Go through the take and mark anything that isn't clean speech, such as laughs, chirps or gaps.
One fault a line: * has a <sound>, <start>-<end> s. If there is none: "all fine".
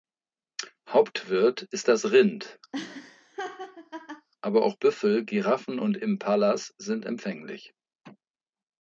* has a laugh, 2.7-4.3 s